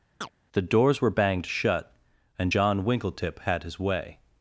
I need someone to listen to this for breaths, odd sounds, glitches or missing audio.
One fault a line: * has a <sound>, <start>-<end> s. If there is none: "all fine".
* has a chirp, 0.2-0.3 s